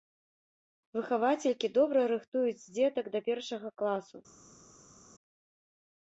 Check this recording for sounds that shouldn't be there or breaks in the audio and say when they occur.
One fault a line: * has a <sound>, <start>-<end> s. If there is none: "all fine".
all fine